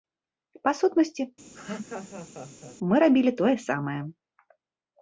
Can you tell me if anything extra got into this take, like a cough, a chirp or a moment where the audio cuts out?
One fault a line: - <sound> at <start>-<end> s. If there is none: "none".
- laugh at 1.5-2.8 s